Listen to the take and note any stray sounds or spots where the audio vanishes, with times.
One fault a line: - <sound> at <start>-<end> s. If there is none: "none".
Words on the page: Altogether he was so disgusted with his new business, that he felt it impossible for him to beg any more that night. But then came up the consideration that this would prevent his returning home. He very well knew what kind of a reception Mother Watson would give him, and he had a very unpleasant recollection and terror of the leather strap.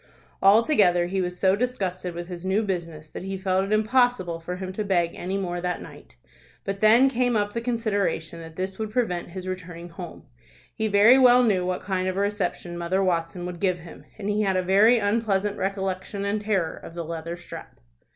none